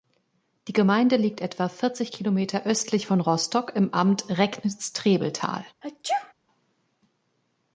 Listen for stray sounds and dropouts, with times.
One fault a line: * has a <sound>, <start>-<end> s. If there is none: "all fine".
* has a sneeze, 5.8-6.3 s